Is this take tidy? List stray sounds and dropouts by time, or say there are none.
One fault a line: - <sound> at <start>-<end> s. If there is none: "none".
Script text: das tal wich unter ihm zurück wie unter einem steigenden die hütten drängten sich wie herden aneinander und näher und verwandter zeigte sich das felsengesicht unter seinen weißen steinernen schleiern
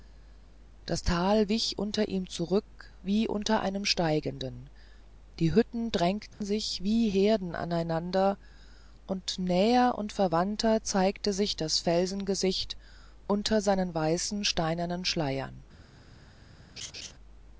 - dropout at 6.3-6.4 s
- laugh at 16.8-17.1 s